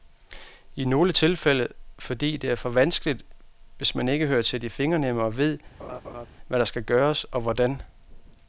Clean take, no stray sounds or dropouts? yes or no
no